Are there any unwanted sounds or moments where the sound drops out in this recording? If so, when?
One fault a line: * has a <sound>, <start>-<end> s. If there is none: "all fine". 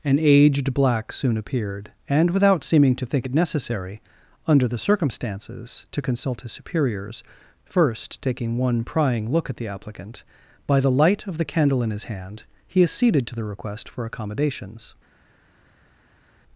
all fine